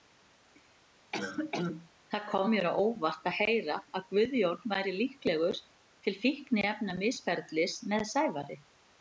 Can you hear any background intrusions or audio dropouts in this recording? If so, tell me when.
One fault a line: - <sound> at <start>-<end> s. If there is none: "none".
- cough at 1.1-1.9 s